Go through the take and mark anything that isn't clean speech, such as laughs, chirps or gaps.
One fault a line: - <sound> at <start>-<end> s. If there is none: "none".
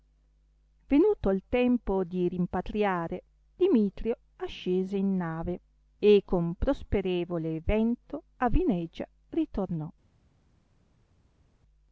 none